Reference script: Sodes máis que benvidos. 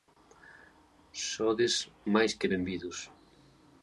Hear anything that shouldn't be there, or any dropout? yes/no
no